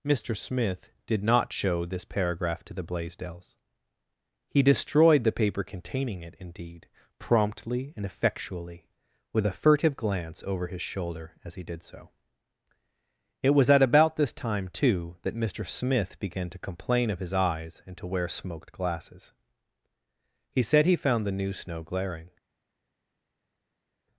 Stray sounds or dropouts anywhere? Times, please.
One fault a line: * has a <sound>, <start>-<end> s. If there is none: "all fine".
all fine